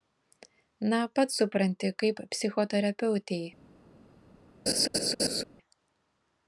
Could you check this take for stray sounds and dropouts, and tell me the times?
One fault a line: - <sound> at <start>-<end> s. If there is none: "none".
- laugh at 4.7-5.4 s